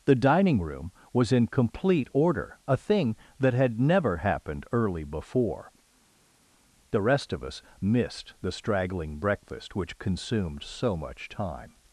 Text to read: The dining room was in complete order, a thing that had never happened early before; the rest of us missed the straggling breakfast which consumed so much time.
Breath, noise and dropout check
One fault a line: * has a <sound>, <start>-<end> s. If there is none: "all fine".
all fine